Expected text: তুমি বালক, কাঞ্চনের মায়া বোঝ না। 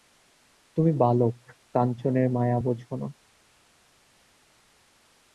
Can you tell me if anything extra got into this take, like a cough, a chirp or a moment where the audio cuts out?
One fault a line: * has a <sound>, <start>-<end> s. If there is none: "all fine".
all fine